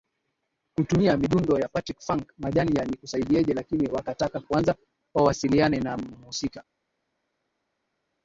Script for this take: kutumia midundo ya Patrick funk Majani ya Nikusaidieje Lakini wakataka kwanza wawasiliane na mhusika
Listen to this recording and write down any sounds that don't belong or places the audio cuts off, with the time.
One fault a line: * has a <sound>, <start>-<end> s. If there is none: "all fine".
all fine